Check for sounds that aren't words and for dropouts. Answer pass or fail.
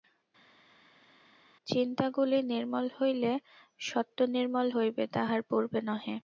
pass